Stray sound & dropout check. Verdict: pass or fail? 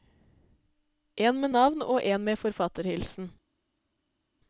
pass